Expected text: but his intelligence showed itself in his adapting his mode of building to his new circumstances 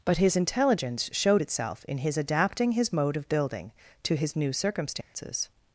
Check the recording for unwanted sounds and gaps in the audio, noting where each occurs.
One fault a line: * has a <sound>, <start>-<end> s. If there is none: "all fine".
* has a dropout, 5.0-5.1 s